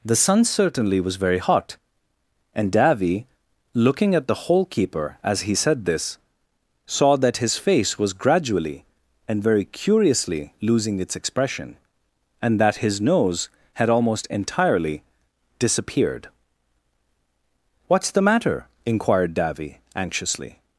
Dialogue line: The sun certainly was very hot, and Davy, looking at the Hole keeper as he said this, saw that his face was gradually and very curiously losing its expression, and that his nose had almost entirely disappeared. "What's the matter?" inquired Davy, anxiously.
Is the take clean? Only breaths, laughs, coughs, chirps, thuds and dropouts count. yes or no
yes